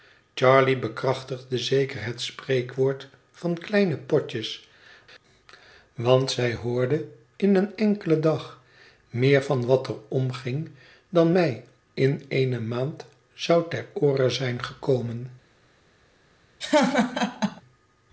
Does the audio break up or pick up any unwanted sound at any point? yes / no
yes